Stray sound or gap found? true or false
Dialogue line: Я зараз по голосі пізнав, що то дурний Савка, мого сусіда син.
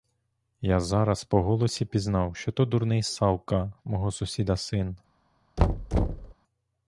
true